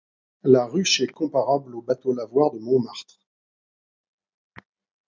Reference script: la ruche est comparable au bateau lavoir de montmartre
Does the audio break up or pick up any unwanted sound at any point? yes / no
no